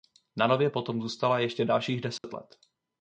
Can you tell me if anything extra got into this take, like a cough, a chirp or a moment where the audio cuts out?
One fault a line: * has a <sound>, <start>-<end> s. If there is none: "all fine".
* has a dropout, 2.2-2.2 s